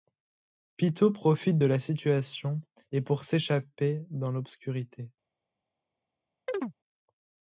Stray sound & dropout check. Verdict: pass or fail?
fail